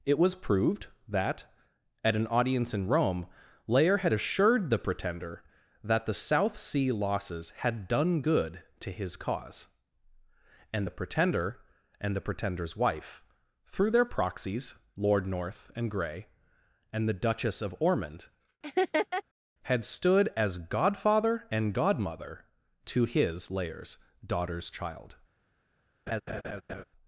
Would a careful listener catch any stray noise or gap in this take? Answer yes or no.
yes